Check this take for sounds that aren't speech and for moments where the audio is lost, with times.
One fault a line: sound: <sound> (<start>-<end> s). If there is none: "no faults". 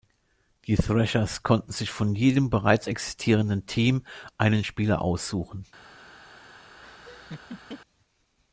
sound: laugh (6.8-7.8 s)